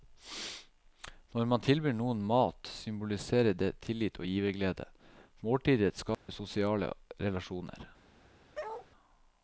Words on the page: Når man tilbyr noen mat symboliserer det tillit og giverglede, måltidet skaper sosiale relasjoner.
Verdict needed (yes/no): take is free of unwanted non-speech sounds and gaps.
no